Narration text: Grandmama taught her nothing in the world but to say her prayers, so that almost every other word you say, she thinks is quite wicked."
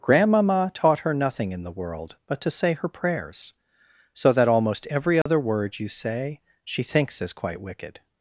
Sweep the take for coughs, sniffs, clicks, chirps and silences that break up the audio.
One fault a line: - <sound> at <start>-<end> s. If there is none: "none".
- dropout at 5.2-5.3 s